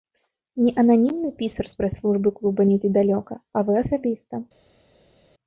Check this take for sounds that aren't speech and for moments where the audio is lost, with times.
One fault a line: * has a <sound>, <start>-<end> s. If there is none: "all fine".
all fine